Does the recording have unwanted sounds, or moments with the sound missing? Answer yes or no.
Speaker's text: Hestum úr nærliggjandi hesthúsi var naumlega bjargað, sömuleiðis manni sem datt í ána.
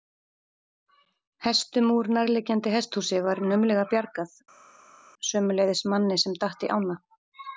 no